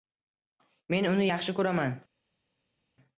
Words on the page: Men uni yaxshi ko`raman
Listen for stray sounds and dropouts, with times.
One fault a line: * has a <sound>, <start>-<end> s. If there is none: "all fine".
all fine